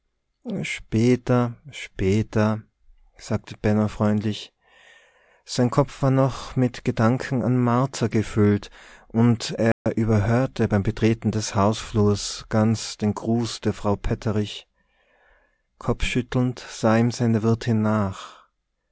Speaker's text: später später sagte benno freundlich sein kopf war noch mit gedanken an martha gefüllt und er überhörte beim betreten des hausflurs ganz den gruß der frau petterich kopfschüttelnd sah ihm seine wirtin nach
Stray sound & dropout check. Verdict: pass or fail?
fail